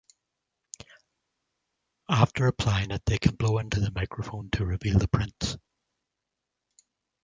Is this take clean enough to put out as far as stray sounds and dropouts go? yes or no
yes